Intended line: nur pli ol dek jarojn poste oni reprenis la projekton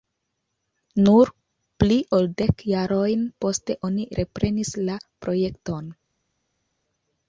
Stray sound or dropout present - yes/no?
no